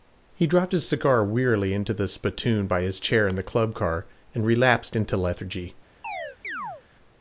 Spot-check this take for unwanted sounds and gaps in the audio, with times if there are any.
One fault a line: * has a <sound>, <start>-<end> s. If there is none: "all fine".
* has a chirp, 6.0-6.8 s